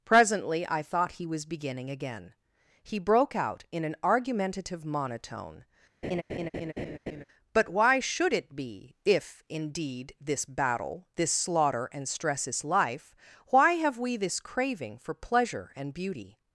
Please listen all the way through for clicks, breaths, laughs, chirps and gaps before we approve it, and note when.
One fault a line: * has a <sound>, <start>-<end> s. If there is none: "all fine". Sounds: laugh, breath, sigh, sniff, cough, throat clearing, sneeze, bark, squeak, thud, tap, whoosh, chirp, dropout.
* has a laugh, 6.0-7.2 s